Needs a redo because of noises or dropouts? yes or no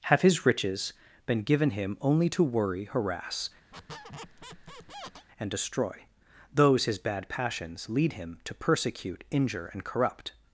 yes